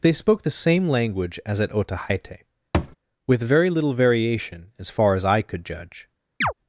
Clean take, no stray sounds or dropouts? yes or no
no